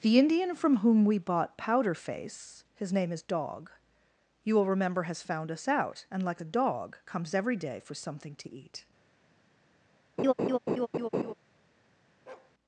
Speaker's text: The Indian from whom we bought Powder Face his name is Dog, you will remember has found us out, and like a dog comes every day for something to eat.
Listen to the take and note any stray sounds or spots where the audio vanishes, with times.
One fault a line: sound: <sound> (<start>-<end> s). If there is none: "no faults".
sound: laugh (10.2-11.3 s)
sound: bark (12.3-12.5 s)